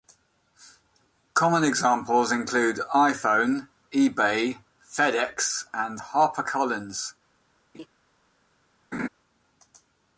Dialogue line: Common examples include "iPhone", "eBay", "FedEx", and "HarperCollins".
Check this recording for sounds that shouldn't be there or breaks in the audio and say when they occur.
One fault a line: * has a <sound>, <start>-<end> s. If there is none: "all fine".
* has a laugh, 7.7-7.9 s
* has a laugh, 8.9-9.1 s